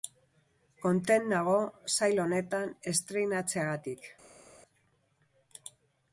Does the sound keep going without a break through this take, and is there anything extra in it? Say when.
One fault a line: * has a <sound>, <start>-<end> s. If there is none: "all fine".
all fine